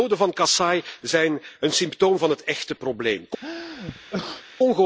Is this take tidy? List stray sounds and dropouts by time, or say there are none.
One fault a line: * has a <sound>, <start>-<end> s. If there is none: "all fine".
* has a sneeze, 3.4-4.4 s